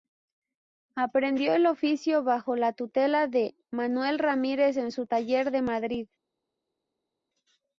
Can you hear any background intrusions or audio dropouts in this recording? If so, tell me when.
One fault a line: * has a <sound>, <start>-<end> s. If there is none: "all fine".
all fine